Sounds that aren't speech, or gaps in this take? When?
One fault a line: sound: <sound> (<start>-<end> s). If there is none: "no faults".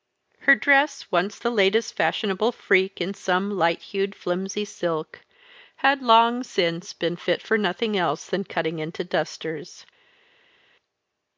no faults